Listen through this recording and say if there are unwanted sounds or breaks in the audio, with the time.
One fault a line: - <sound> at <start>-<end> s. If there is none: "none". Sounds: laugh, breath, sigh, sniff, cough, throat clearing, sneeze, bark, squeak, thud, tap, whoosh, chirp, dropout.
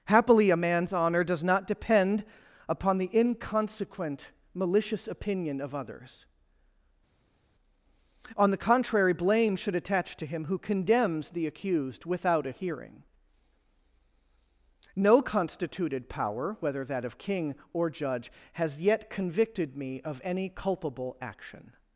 none